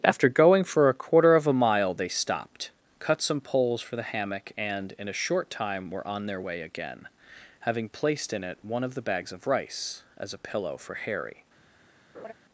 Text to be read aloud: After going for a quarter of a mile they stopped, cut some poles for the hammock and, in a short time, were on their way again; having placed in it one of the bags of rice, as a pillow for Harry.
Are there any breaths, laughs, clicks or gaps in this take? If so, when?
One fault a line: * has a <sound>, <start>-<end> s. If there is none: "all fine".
* has a laugh, 12.1-12.3 s